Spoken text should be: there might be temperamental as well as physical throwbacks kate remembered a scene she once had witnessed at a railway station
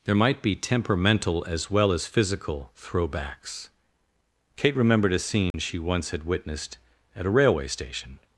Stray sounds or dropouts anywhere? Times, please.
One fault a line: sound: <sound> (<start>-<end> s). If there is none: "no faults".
sound: dropout (5.5-5.5 s)